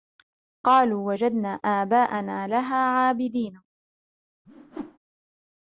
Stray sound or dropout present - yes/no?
yes